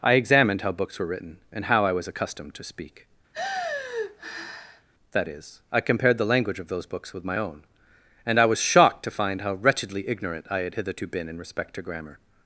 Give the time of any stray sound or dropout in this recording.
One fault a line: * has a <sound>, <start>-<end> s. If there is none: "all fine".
* has a sigh, 3.3-4.9 s